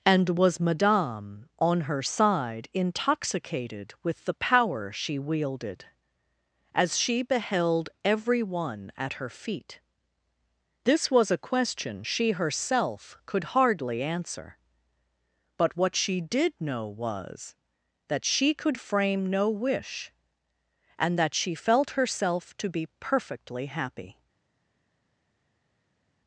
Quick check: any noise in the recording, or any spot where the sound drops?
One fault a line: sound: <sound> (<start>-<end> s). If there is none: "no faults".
no faults